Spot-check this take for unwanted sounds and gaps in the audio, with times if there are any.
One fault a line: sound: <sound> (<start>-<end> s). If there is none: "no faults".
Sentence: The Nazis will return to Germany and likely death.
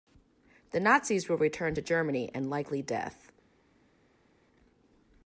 no faults